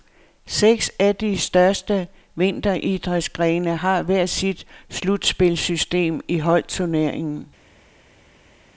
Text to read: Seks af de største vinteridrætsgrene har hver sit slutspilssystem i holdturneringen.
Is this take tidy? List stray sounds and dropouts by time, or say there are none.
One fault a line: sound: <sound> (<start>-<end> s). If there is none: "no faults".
no faults